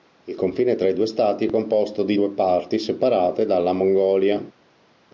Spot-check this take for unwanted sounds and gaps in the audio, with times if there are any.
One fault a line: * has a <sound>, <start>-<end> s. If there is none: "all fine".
all fine